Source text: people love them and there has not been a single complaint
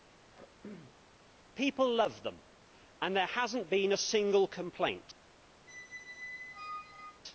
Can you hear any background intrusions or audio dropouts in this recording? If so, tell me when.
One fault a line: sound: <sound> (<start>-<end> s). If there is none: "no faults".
sound: throat clearing (0.3-1.0 s)
sound: squeak (5.7-7.2 s)